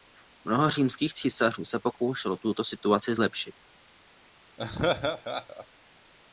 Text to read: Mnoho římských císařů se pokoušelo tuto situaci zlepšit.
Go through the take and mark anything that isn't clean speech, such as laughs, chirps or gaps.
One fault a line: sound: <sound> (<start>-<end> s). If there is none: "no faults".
sound: laugh (4.6-5.7 s)